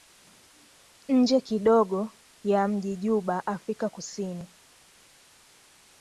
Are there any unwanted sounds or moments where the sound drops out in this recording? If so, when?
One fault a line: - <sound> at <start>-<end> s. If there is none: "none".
none